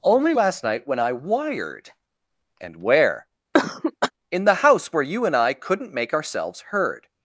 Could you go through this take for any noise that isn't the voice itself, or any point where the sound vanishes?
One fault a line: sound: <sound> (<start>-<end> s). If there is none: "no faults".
sound: cough (3.5-4.1 s)